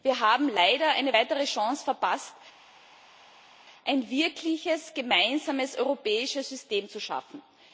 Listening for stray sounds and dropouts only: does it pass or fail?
pass